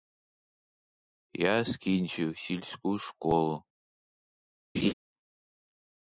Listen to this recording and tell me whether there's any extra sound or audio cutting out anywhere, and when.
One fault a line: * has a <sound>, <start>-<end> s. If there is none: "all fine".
* has a laugh, 4.7-4.9 s